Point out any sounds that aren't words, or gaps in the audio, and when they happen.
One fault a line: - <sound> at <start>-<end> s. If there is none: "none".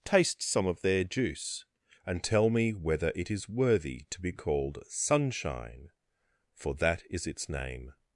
none